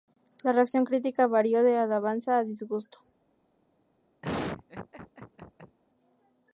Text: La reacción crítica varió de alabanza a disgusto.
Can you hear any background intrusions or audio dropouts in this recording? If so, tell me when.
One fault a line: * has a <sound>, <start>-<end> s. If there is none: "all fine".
* has a laugh, 4.2-5.8 s